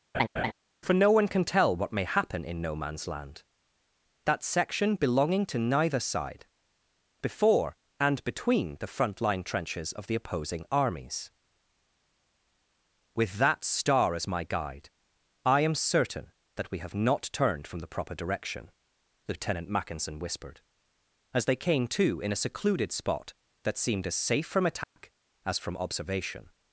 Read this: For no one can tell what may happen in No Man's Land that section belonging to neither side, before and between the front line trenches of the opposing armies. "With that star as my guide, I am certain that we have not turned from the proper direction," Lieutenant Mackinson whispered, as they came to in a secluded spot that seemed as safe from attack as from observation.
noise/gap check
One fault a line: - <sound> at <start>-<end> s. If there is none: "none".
- laugh at 0.1-0.5 s
- dropout at 24.8-25.0 s